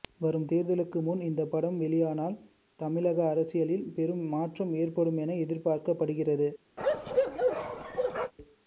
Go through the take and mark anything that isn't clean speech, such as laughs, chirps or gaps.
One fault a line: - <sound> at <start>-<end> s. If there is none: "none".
- bark at 6.8-8.3 s